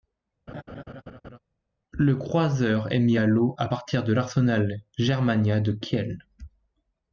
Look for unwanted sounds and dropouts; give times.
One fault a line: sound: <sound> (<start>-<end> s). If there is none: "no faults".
sound: laugh (0.5-1.4 s)